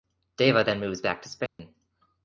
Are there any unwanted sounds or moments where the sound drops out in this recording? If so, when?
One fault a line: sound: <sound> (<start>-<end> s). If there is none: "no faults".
sound: dropout (1.5-1.6 s)